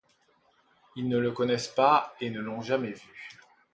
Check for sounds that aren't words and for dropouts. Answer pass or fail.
pass